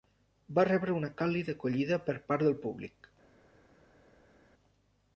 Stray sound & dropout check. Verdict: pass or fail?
pass